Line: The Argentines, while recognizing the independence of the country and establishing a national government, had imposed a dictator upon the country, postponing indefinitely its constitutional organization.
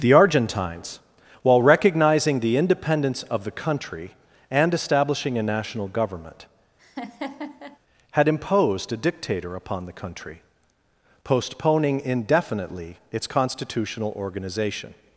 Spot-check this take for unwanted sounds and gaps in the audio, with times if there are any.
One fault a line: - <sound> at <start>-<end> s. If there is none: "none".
- laugh at 6.8-7.8 s